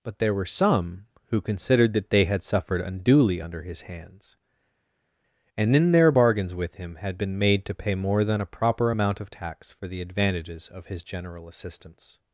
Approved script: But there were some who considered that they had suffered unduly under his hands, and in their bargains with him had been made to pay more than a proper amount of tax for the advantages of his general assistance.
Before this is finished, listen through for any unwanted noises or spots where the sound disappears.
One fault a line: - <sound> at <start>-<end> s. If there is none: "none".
none